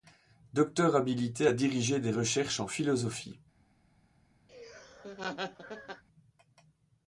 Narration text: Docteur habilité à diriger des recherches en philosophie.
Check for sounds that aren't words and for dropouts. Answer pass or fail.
fail